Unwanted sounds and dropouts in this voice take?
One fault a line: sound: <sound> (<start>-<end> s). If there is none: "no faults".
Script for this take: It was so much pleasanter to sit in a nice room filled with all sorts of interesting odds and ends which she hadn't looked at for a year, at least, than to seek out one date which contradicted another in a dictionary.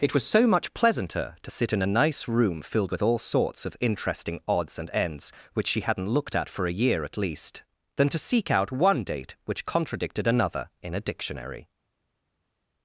no faults